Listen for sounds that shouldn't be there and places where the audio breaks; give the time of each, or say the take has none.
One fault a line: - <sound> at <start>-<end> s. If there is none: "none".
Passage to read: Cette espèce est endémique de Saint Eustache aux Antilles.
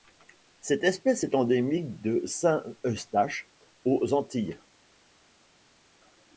none